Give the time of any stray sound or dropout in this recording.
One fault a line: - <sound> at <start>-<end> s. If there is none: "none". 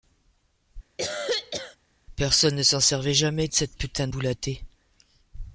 - cough at 1.0-1.8 s